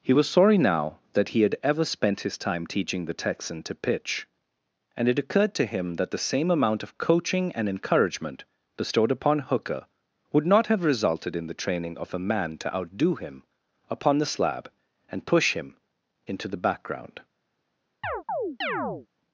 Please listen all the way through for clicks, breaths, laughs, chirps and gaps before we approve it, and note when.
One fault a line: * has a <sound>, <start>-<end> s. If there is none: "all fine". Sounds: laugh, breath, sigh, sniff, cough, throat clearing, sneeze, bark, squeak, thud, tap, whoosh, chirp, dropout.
* has a chirp, 18.0-19.1 s